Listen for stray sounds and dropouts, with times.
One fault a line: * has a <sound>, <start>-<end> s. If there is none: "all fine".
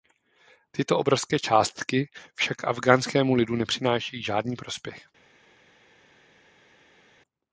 all fine